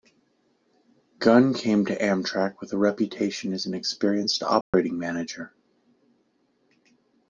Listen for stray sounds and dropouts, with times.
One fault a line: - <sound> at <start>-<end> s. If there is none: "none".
- dropout at 4.6-4.7 s